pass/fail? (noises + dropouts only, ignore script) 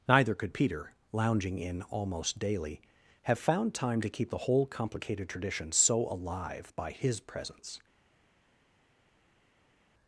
pass